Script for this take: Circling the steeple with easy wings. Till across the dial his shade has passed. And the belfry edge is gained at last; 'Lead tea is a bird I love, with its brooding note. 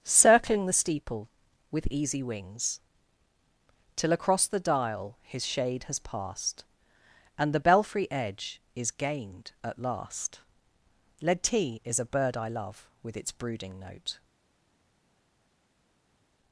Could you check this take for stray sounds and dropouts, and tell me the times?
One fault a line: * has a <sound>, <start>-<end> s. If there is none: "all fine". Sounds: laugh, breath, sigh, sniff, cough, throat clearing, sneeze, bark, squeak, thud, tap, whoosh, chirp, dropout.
all fine